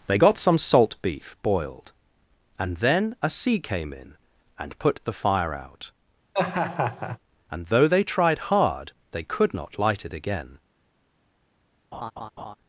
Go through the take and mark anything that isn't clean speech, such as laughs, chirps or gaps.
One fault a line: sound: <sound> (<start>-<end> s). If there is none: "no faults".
sound: laugh (6.3-7.2 s)
sound: laugh (11.9-12.5 s)